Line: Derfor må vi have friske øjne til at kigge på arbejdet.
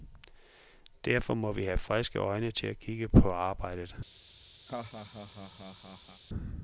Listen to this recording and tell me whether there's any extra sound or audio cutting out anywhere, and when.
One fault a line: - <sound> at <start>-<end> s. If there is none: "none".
- laugh at 4.7-6.2 s